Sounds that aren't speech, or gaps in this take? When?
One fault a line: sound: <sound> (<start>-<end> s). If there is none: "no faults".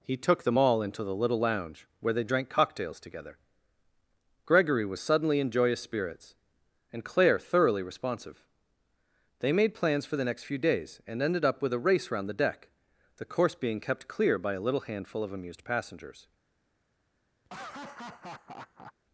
sound: laugh (17.4-18.9 s)